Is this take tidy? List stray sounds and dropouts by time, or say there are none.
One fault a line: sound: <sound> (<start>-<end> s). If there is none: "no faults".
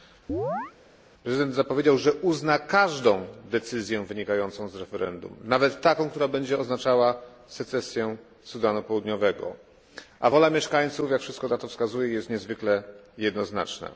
sound: chirp (0.3-0.7 s)